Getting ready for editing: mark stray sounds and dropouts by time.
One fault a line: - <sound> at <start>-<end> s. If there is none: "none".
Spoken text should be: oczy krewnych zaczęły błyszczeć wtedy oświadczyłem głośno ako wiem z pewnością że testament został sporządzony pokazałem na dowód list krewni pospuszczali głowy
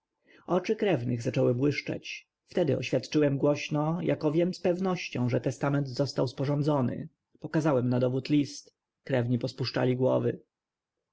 none